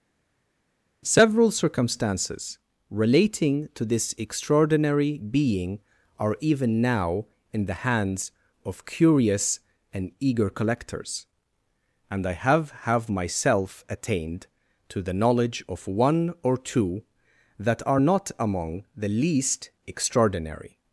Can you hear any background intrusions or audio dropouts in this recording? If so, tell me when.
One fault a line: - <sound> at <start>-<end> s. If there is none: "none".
none